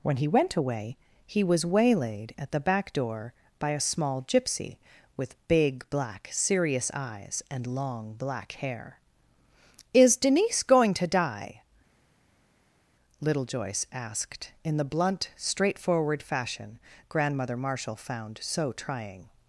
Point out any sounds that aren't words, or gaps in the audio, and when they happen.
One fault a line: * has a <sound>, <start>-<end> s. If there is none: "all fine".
all fine